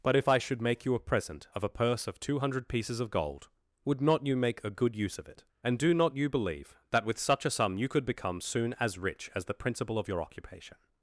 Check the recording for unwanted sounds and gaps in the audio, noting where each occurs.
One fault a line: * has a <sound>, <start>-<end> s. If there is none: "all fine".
all fine